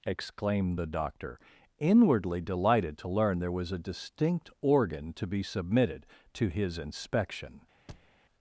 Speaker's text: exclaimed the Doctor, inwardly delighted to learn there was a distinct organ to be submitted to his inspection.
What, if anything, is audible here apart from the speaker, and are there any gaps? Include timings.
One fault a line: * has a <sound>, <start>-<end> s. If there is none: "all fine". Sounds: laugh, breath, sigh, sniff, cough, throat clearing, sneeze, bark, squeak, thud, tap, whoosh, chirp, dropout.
* has a thud, 7.9-8.1 s